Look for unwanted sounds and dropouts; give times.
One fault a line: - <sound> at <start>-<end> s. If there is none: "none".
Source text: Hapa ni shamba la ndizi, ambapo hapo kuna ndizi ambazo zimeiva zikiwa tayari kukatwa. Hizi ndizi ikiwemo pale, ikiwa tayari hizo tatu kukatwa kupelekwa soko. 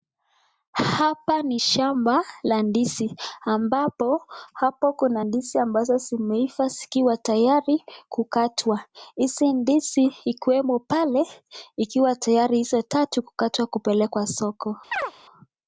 - chirp at 14.9-15.1 s